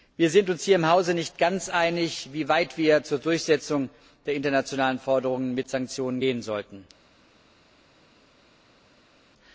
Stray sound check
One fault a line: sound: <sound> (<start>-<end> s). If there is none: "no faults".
no faults